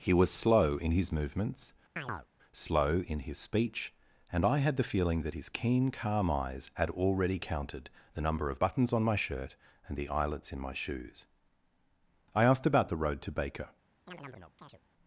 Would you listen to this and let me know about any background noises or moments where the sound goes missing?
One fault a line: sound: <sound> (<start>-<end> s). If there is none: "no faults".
sound: chirp (2.0-2.3 s)
sound: chirp (14.1-14.8 s)